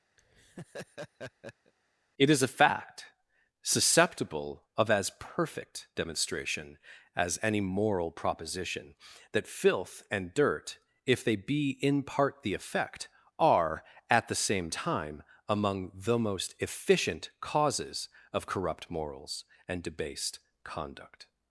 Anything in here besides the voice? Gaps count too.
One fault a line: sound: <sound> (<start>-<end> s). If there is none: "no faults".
sound: laugh (0.2-1.7 s)